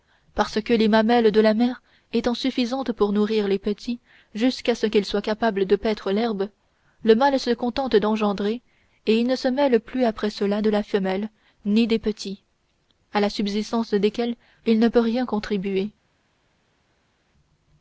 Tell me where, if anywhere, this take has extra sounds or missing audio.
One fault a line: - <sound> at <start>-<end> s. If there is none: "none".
none